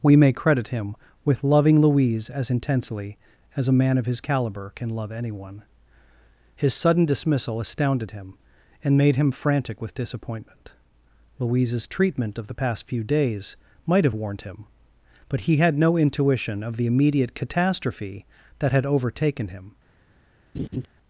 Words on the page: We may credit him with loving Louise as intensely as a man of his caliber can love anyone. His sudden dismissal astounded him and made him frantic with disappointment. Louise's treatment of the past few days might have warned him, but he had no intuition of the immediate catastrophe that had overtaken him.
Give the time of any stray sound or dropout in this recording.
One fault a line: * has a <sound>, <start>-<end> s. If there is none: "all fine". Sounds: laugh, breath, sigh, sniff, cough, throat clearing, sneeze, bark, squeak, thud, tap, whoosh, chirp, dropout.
* has a laugh, 20.5-20.9 s